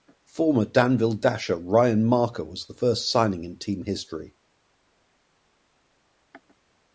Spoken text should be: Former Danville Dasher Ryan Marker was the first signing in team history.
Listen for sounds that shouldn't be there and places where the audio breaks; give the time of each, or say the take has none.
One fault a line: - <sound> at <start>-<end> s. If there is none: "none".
none